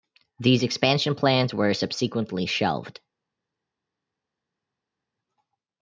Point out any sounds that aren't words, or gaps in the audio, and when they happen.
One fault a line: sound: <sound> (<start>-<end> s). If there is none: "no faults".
no faults